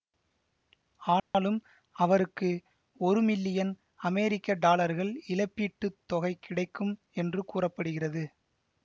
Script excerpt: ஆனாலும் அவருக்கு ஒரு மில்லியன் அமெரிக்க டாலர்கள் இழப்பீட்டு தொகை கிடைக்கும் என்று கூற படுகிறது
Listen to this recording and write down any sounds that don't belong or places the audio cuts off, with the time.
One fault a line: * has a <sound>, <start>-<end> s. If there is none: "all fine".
* has a dropout, 1.2-1.3 s